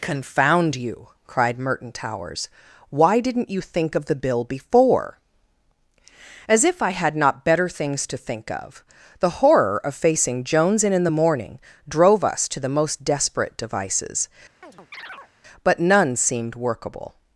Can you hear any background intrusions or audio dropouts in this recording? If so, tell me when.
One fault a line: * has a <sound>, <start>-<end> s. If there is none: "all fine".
* has a chirp, 14.6-15.3 s